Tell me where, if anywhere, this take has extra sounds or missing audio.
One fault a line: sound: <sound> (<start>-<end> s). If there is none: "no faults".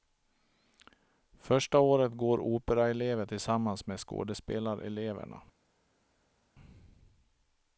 no faults